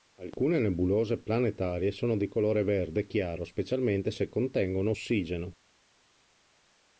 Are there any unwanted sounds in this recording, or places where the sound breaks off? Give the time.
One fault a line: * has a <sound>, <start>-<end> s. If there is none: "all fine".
all fine